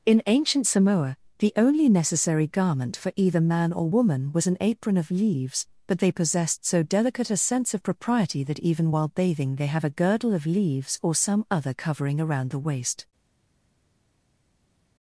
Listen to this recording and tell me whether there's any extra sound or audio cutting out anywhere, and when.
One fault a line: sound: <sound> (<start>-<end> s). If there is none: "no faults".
no faults